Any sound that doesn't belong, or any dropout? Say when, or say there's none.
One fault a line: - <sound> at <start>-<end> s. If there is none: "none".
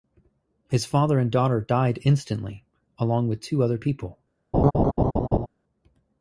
- laugh at 4.5-5.5 s